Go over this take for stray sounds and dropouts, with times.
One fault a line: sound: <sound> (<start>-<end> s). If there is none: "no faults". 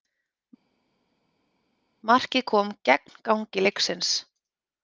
no faults